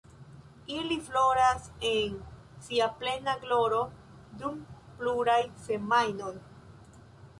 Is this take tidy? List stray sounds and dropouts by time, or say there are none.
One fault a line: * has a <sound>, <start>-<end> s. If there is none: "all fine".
all fine